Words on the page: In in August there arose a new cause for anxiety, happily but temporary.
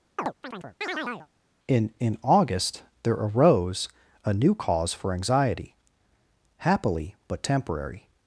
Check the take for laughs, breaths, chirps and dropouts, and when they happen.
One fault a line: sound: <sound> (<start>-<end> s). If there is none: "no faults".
sound: chirp (0.2-1.3 s)